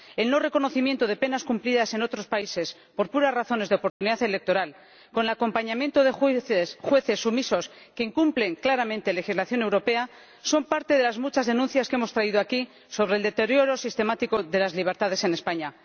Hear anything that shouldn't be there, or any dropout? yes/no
yes